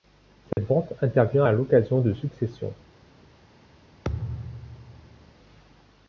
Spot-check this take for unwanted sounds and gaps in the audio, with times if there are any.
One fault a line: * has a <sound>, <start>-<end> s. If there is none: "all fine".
* has a dropout, 0.5-0.6 s
* has a thud, 4.0-5.3 s